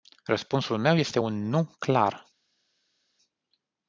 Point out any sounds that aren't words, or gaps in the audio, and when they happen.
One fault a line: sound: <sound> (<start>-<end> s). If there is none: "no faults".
no faults